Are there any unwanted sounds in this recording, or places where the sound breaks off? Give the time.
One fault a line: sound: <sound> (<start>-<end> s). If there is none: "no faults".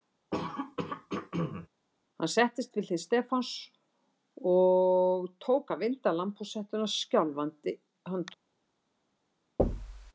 sound: throat clearing (0.3-1.7 s)
sound: thud (9.6-10.1 s)